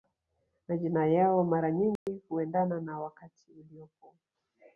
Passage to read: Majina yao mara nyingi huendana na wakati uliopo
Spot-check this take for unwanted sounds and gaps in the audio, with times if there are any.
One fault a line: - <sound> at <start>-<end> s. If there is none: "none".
- dropout at 2.0-2.1 s